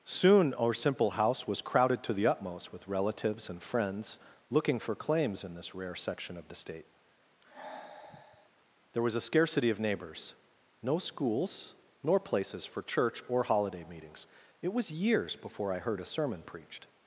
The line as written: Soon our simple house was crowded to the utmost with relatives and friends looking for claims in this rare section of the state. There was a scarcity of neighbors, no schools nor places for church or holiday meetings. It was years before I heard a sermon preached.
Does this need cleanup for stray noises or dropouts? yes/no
yes